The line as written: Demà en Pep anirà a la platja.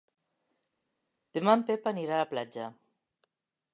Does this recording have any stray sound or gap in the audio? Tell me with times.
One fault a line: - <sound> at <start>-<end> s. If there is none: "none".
none